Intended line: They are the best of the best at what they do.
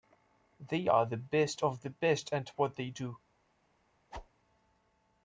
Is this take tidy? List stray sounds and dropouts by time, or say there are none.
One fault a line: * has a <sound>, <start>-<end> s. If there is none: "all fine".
* has a whoosh, 4.1-4.3 s